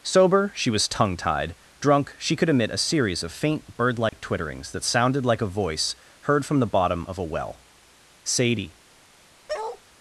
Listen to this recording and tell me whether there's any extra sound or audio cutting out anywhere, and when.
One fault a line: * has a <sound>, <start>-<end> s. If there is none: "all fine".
* has a dropout, 4.1-4.1 s
* has a bark, 9.5-9.8 s